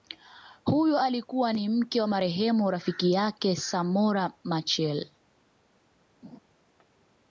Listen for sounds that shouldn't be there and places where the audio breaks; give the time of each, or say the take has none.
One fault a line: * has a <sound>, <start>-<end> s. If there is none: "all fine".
* has a laugh, 6.2-6.4 s